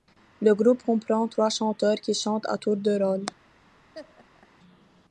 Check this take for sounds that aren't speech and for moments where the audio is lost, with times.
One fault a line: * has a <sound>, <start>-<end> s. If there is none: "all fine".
* has a laugh, 3.9-4.5 s